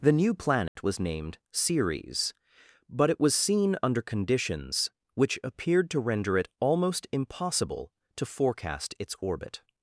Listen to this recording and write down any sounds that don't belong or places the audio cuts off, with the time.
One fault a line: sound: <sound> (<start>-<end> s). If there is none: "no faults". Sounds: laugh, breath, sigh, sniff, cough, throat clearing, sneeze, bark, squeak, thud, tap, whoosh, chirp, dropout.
sound: dropout (0.7-0.8 s)